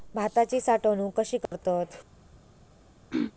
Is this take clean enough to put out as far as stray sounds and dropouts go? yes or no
no